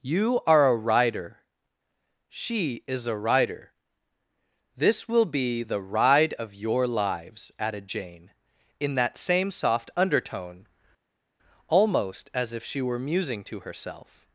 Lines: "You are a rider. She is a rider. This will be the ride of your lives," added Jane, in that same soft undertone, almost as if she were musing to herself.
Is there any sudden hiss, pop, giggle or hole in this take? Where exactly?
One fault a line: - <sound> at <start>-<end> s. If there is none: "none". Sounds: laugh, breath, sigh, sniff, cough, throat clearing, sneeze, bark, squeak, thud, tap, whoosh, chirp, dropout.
none